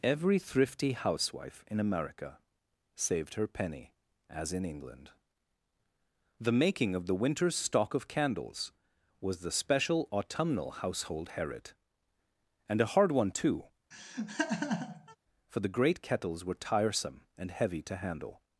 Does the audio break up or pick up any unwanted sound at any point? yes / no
yes